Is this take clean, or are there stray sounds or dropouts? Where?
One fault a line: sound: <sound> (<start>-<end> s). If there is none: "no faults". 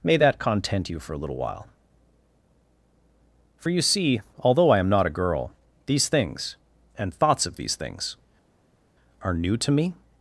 no faults